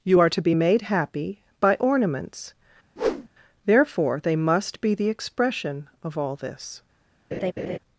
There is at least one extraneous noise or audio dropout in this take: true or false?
true